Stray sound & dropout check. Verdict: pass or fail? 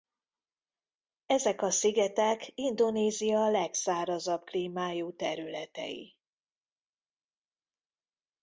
pass